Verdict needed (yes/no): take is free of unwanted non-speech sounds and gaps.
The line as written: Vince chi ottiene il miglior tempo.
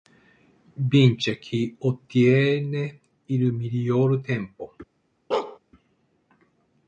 no